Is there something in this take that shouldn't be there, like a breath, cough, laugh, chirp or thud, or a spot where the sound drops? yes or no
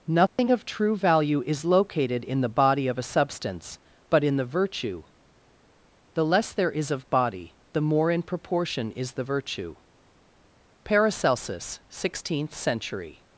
yes